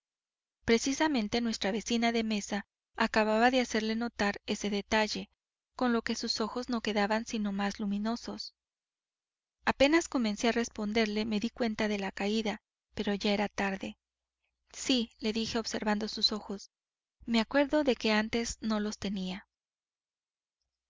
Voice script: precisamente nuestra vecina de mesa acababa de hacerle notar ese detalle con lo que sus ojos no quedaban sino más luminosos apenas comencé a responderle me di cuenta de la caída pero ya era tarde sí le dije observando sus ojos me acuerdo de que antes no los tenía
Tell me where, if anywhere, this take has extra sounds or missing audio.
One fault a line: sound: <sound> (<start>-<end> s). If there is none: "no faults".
no faults